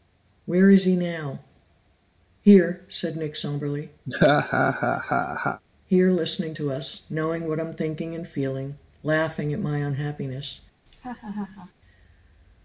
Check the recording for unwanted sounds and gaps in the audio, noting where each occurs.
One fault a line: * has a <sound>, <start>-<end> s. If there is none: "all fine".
* has a laugh, 4.1-5.6 s
* has a laugh, 10.9-11.7 s